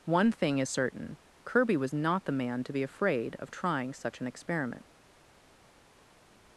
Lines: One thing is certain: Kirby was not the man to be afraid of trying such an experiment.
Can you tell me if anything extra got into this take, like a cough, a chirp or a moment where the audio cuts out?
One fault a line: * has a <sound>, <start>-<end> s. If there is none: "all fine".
all fine